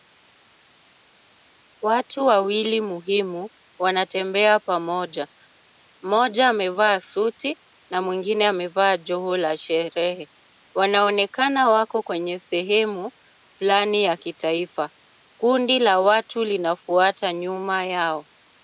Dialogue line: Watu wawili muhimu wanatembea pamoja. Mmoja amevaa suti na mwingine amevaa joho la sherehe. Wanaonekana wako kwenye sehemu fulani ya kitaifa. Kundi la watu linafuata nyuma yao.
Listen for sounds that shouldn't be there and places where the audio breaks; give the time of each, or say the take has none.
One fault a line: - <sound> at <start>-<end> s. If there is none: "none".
none